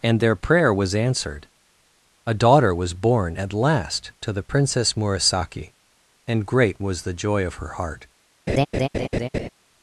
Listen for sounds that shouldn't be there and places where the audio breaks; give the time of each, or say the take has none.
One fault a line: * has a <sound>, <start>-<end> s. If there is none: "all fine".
* has a laugh, 8.5-9.5 s